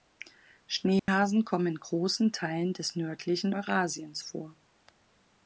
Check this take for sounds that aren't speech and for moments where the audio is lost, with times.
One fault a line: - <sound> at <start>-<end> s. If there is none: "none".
- dropout at 1.0-1.1 s